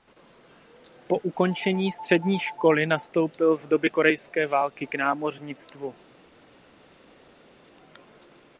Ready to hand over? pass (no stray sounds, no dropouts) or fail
pass